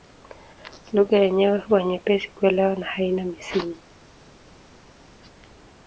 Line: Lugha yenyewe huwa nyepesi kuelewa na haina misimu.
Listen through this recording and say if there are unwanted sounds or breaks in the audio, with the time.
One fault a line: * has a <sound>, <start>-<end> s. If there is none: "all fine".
all fine